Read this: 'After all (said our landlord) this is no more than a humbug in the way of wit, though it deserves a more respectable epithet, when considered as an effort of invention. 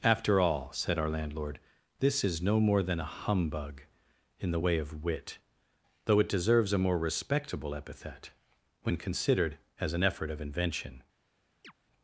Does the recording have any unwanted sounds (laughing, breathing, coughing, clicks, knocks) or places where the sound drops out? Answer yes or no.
yes